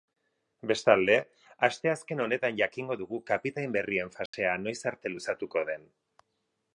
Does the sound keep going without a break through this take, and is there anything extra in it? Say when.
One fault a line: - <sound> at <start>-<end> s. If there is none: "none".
- dropout at 4.3-4.3 s